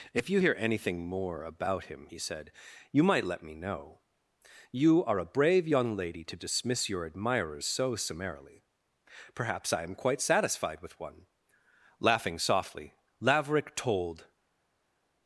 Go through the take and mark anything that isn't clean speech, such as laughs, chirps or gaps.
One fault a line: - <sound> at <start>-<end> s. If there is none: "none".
none